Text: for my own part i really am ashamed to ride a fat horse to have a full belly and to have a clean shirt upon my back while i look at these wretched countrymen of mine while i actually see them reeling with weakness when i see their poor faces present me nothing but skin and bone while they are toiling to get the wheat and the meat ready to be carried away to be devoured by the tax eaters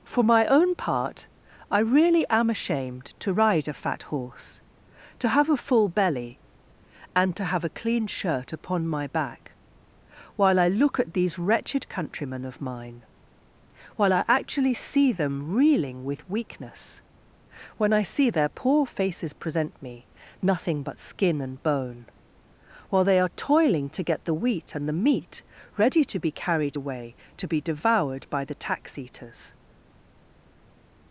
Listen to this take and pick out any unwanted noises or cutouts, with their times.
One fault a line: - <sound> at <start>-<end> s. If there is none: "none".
none